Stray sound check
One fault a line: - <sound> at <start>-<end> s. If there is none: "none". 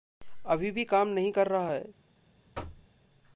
- thud at 2.5-2.9 s